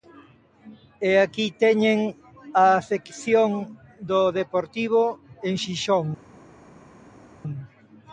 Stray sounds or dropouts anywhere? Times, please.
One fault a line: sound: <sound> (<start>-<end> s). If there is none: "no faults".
no faults